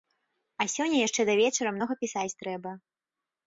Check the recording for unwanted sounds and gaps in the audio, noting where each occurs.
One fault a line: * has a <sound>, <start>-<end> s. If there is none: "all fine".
all fine